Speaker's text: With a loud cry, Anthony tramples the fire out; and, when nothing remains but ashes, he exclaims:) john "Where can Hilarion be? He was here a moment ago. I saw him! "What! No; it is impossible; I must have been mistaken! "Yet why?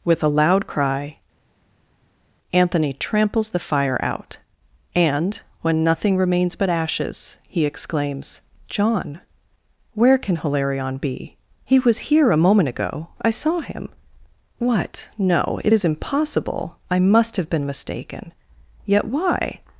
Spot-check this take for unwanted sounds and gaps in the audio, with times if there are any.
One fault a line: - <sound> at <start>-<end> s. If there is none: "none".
none